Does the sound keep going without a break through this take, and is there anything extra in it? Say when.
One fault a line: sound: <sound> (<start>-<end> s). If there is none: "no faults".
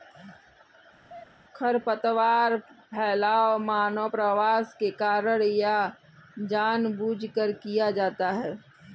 sound: sneeze (1.0-1.4 s)